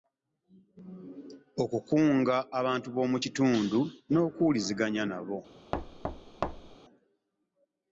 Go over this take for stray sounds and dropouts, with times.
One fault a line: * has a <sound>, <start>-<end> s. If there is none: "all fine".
* has a thud, 5.7-6.8 s